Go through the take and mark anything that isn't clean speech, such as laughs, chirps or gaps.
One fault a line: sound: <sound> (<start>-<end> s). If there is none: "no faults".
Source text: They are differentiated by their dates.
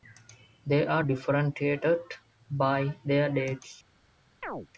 sound: chirp (4.4-4.7 s)